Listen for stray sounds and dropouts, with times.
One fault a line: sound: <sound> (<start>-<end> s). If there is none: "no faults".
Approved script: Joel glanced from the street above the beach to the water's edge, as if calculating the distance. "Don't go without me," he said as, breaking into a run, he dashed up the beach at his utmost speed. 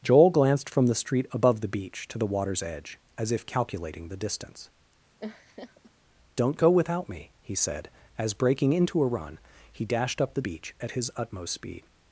sound: laugh (5.2-5.9 s)